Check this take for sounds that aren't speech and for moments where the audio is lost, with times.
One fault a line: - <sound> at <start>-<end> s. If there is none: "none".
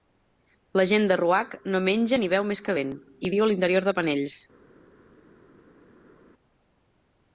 none